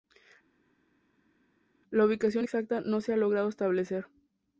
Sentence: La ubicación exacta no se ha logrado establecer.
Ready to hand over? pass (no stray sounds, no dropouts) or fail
pass